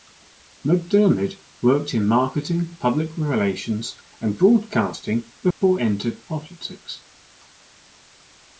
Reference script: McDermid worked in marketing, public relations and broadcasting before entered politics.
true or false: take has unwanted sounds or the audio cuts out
true